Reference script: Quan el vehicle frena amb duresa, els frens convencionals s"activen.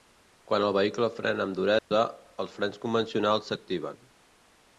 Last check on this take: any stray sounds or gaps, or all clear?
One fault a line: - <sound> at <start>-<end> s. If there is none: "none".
- dropout at 1.8-1.9 s